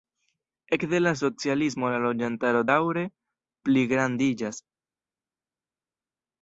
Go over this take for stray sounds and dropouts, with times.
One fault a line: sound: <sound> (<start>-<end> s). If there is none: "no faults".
no faults